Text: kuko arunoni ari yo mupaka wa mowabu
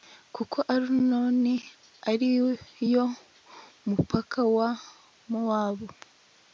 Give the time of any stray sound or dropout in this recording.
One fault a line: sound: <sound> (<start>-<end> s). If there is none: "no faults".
no faults